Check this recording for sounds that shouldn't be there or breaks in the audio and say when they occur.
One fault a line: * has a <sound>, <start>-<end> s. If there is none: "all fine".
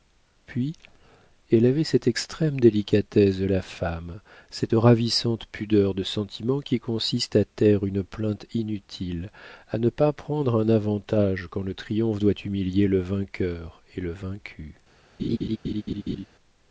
* has a laugh, 15.2-16.3 s